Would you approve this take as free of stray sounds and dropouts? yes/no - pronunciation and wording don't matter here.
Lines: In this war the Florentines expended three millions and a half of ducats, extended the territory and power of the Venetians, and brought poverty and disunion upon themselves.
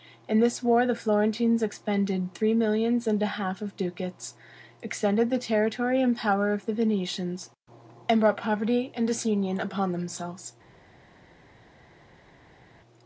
yes